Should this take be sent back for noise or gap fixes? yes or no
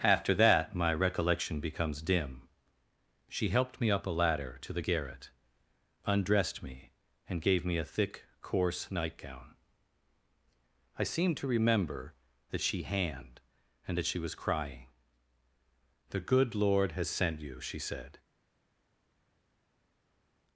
no